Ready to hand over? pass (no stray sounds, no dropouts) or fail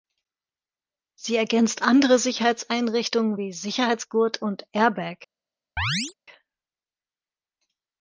fail